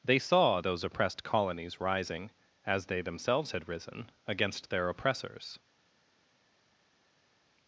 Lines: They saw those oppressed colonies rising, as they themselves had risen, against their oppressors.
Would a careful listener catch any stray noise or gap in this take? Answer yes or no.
no